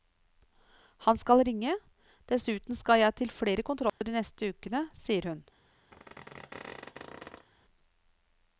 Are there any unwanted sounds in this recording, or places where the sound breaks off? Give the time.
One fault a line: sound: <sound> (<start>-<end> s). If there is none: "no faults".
sound: dropout (3.9-4.0 s)
sound: squeak (5.9-7.5 s)